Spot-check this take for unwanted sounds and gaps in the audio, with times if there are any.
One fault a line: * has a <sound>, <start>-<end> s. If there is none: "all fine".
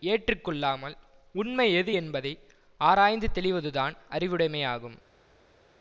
all fine